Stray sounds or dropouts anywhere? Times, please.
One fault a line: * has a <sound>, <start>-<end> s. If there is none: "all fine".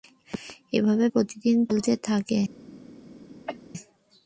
* has a cough, 3.5-3.6 s